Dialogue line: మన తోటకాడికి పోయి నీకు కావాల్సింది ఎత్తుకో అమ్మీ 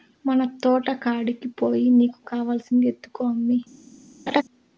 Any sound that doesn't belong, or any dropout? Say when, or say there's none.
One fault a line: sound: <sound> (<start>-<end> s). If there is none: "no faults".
sound: laugh (4.3-4.4 s)